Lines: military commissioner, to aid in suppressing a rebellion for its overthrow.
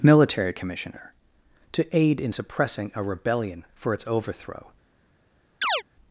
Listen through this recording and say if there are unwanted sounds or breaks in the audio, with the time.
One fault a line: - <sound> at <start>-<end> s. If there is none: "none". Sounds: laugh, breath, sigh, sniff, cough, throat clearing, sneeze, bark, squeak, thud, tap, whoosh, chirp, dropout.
- chirp at 5.6-5.8 s